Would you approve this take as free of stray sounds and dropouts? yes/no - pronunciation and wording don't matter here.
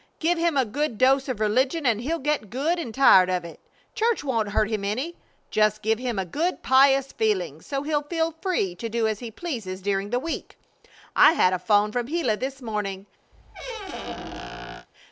no